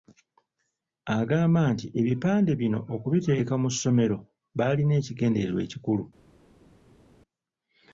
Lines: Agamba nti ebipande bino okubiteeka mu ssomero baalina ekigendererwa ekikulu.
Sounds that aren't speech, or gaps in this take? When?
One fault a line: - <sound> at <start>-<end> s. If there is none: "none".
none